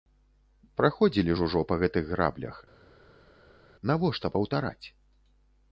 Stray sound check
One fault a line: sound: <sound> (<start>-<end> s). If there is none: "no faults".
no faults